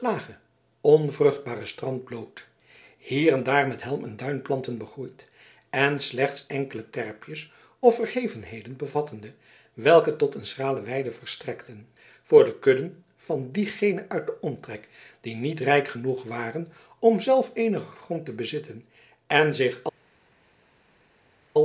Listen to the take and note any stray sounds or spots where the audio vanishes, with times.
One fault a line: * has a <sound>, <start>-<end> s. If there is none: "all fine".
all fine